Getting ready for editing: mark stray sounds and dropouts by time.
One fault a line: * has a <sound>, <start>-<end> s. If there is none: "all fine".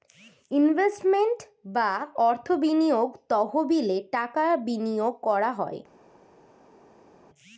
all fine